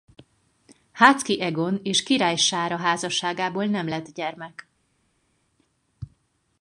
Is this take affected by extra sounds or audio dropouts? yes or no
no